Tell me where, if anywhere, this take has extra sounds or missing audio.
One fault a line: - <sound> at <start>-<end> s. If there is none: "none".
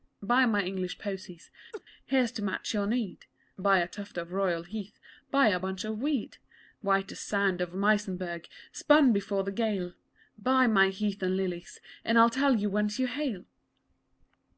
- laugh at 1.7-1.8 s